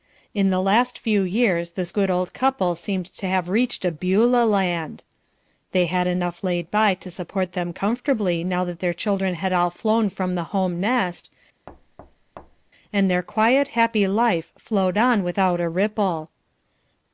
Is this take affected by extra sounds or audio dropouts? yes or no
yes